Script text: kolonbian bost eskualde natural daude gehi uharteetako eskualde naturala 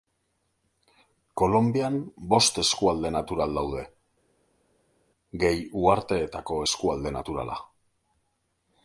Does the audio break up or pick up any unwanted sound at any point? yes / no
no